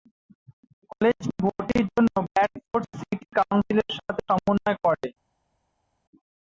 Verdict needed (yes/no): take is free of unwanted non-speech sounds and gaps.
yes